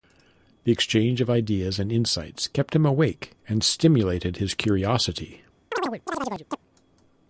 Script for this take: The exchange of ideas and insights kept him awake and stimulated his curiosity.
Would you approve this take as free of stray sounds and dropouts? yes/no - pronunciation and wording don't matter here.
no